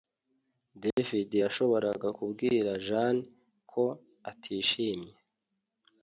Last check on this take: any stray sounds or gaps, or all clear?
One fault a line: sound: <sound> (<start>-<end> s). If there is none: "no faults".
sound: dropout (0.9-1.0 s)